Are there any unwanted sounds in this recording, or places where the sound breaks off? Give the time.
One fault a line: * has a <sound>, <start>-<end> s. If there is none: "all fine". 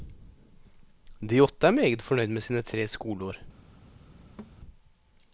* has a thud, 4.4-4.6 s